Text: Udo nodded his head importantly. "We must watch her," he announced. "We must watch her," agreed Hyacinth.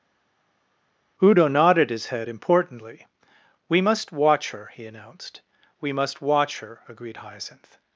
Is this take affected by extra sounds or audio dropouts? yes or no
no